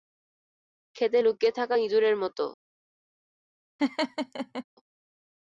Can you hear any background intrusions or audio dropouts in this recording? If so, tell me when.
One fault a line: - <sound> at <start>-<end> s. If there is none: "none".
- laugh at 3.8-4.6 s